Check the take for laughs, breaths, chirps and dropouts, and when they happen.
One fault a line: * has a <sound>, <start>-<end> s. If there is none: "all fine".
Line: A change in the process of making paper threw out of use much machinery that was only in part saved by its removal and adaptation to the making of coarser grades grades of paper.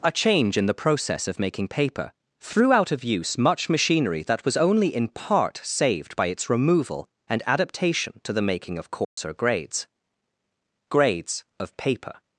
* has a dropout, 9.0-9.2 s